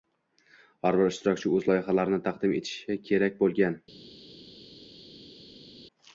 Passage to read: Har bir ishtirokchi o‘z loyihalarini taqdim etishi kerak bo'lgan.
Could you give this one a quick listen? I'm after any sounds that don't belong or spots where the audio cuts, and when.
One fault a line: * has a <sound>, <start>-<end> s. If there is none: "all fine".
all fine